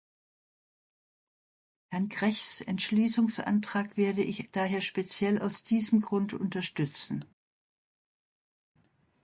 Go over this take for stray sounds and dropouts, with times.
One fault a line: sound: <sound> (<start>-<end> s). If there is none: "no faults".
no faults